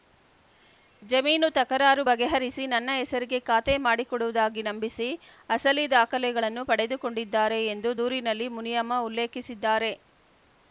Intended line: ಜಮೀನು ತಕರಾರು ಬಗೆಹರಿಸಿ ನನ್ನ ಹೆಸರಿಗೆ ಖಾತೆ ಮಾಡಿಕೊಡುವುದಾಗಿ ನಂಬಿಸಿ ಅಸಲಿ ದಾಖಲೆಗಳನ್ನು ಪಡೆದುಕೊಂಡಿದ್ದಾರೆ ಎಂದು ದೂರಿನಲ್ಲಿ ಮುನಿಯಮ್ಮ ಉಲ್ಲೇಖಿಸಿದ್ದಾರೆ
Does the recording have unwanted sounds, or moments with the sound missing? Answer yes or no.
no